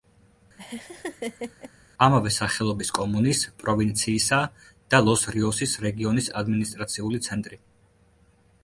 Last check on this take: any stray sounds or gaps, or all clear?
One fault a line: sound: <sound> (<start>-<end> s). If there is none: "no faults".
sound: laugh (0.6-1.7 s)